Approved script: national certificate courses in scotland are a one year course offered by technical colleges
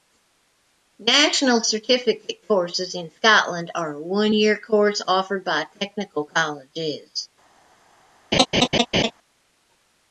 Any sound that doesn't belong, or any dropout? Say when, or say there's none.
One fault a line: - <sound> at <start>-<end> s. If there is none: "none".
- laugh at 8.3-9.1 s